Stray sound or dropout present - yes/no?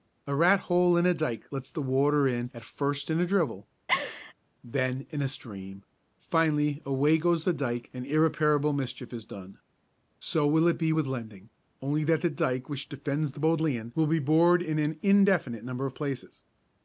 yes